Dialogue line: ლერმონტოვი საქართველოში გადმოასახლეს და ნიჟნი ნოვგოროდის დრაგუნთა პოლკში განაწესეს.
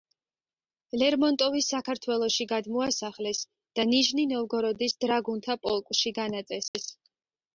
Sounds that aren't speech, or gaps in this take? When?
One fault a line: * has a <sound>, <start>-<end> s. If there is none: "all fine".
* has a dropout, 6.7-6.7 s